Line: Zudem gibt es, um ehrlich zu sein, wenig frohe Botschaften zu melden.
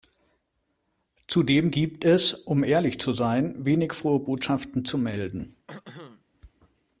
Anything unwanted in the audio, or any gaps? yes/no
yes